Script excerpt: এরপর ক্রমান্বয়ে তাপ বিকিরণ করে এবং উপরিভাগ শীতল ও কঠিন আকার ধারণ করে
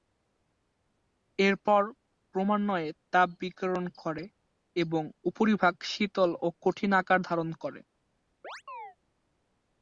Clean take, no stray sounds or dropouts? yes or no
no